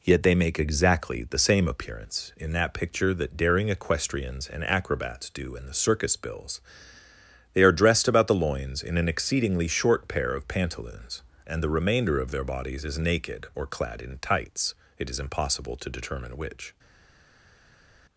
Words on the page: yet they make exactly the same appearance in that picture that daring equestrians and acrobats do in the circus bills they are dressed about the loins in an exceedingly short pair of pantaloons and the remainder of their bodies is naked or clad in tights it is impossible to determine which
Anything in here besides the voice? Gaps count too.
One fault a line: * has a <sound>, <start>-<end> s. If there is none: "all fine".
all fine